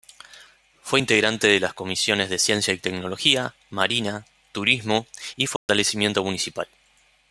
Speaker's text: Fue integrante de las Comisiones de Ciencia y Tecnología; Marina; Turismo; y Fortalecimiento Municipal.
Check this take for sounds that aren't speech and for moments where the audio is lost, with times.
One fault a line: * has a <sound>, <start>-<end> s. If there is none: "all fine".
* has a dropout, 5.6-5.7 s